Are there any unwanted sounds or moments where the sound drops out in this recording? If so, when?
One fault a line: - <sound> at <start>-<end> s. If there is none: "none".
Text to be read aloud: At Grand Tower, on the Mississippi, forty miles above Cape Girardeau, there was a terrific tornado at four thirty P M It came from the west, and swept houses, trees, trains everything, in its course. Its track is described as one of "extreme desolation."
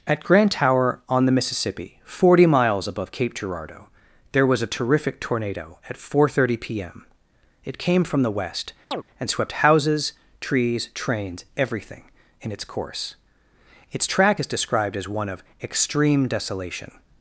- chirp at 8.9-9.0 s